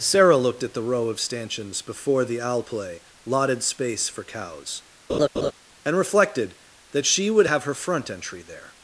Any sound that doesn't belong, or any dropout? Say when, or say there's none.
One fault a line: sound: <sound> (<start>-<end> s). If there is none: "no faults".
sound: laugh (5.1-5.5 s)